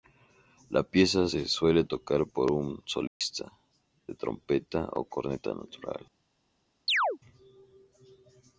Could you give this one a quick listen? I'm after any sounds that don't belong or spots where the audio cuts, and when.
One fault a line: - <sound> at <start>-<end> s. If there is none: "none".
- dropout at 3.1-3.2 s
- chirp at 6.9-7.2 s